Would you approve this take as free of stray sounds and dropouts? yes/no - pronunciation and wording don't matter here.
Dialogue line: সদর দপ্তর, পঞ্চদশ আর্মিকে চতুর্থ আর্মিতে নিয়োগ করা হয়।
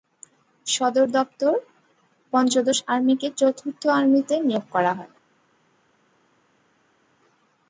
yes